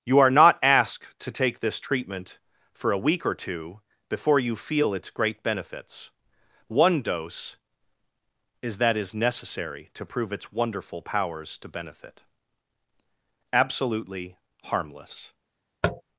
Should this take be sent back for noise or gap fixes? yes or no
yes